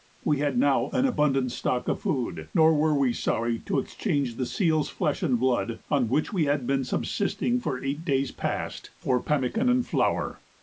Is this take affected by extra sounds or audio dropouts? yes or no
no